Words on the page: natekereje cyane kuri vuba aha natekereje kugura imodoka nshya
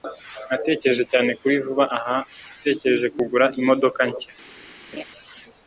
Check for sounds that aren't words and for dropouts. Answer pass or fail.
fail